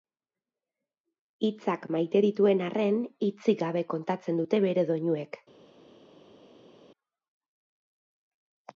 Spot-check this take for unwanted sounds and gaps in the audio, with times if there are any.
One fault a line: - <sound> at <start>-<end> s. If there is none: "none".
none